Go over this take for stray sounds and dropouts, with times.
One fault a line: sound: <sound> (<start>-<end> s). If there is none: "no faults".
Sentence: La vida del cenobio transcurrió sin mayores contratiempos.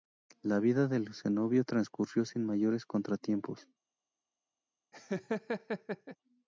sound: laugh (4.9-6.2 s)